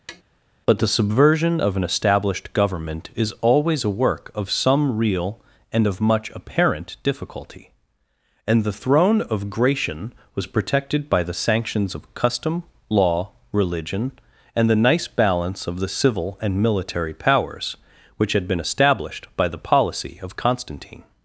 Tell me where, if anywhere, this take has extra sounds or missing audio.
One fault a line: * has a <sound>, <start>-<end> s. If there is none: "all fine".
* has a tap, 0.1-0.2 s